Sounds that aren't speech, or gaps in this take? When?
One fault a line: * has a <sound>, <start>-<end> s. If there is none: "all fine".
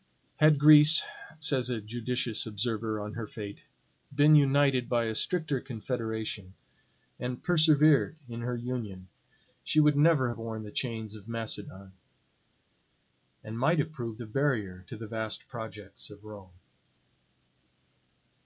all fine